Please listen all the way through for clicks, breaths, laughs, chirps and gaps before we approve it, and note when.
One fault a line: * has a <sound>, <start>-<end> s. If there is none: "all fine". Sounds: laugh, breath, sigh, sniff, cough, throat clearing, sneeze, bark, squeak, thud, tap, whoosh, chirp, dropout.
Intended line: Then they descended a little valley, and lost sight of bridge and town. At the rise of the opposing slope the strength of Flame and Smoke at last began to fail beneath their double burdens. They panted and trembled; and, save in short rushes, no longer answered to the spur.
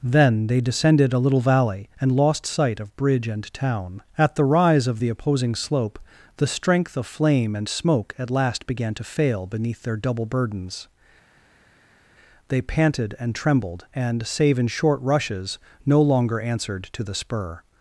all fine